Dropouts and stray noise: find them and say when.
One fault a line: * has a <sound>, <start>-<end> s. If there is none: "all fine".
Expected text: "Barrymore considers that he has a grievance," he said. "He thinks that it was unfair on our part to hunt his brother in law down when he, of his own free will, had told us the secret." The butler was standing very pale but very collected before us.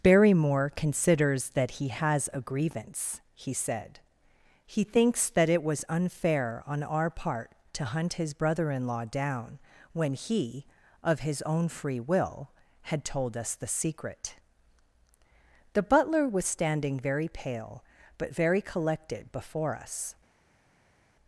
all fine